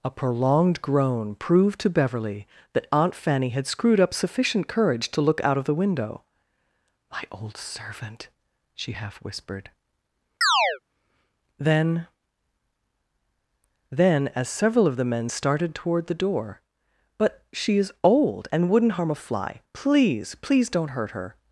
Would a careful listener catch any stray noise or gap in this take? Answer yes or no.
yes